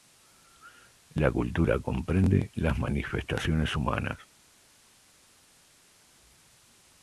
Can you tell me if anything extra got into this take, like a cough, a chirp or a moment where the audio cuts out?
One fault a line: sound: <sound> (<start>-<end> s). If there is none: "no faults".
no faults